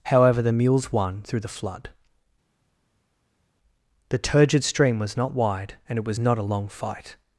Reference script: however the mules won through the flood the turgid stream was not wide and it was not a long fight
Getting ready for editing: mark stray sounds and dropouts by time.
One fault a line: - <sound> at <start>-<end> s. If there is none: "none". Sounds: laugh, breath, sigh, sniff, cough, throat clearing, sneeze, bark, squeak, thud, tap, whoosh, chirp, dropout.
none